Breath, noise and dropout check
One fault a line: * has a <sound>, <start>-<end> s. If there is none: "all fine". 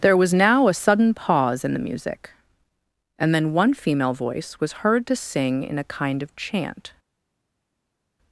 all fine